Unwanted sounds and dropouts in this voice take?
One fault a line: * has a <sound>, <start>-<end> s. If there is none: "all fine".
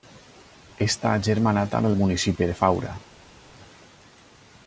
all fine